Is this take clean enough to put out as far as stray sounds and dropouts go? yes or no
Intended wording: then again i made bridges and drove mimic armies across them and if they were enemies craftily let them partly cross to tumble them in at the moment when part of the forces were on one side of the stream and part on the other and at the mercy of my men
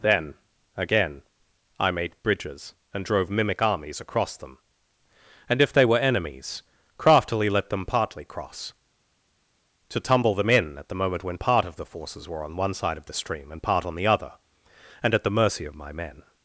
yes